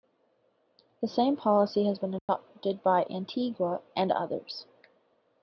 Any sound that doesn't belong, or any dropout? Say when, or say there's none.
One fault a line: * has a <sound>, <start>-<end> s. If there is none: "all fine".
* has a dropout, 2.2-2.3 s